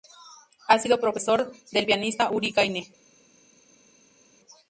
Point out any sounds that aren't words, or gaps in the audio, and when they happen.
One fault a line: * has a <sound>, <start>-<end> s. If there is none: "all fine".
all fine